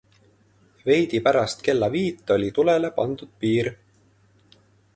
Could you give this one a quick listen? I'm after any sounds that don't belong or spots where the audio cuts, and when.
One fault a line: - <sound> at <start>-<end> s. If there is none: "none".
none